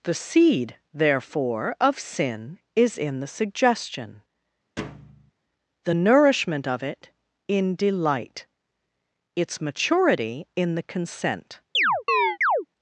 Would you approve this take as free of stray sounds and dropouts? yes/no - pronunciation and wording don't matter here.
no